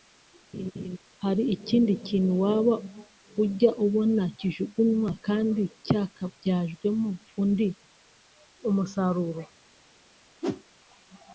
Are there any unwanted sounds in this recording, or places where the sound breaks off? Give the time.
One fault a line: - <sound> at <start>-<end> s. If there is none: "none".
- laugh at 0.5-1.0 s
- whoosh at 10.4-10.6 s